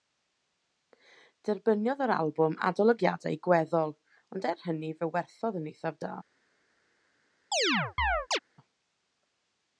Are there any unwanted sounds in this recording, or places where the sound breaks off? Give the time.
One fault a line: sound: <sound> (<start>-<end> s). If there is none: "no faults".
sound: chirp (7.5-8.4 s)